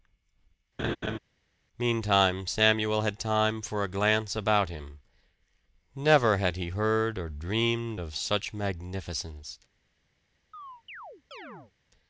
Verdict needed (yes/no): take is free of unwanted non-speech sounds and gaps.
no